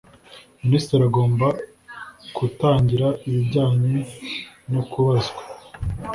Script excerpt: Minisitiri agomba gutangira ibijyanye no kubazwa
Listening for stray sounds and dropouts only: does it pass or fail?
pass